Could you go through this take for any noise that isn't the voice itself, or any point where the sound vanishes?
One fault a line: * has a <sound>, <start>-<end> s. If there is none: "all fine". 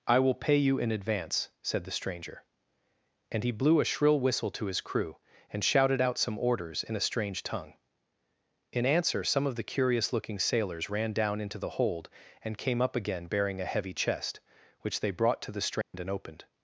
* has a dropout, 15.8-15.9 s